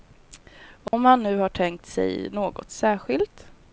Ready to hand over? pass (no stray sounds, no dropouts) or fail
fail